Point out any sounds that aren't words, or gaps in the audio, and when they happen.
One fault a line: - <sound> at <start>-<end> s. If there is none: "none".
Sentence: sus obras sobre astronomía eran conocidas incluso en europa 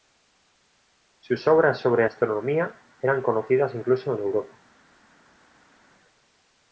none